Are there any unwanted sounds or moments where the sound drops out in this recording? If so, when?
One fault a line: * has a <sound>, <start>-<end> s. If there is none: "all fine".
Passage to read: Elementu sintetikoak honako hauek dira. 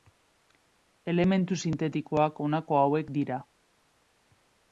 all fine